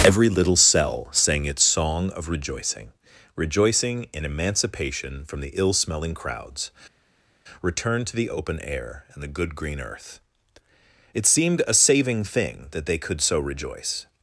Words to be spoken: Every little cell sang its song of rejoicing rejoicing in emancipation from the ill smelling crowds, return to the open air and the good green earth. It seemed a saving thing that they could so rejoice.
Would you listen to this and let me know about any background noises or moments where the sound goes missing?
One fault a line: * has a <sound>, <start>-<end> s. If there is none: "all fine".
all fine